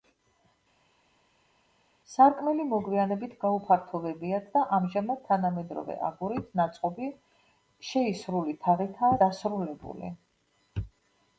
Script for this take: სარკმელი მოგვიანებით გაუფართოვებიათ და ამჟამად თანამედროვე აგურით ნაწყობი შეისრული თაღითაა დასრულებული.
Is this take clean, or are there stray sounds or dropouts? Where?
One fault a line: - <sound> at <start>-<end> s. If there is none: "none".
none